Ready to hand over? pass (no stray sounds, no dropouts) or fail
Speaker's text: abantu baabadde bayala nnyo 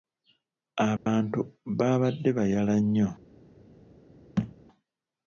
fail